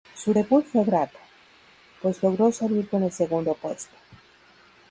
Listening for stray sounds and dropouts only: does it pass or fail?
pass